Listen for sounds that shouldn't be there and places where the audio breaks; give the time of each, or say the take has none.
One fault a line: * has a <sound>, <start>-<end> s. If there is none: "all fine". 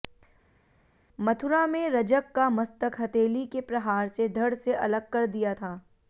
all fine